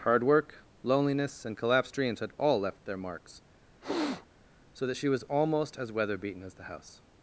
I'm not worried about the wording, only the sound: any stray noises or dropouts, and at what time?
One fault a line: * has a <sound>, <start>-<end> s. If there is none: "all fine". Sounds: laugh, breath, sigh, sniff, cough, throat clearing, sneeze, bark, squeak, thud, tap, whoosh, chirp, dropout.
* has a sniff, 3.8-4.3 s